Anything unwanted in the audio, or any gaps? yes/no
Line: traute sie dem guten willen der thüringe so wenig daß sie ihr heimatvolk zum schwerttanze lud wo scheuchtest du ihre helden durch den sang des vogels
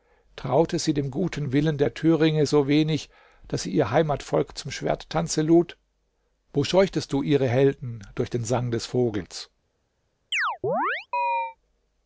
yes